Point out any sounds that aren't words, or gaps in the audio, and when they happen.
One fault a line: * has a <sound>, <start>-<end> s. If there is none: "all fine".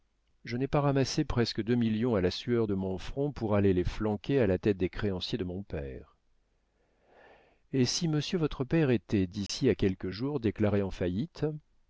* has a dropout, 9.5-9.5 s